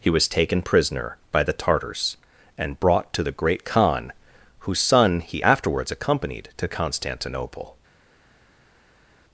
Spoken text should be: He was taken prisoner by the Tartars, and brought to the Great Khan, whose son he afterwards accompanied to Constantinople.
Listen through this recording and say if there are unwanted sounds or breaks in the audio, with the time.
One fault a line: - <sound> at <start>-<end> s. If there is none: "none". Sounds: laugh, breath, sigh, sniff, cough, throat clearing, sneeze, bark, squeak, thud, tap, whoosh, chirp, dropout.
none